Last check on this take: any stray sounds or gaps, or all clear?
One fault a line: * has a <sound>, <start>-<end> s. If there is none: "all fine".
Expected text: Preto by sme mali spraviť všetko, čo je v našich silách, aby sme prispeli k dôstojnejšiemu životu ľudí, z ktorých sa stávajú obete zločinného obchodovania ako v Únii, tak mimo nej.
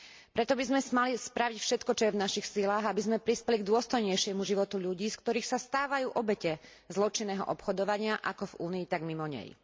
all fine